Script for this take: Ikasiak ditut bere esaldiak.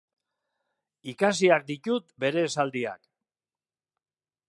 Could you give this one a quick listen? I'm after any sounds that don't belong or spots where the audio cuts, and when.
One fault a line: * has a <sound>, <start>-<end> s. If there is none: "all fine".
all fine